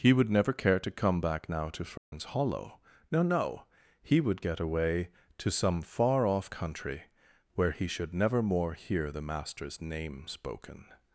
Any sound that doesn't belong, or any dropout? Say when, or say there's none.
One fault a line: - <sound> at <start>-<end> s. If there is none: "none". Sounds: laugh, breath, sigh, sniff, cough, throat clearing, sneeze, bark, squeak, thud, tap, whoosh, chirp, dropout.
- dropout at 2.0-2.1 s